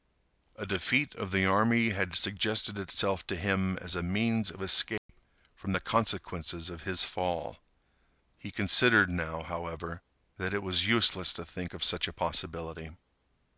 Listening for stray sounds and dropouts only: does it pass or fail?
fail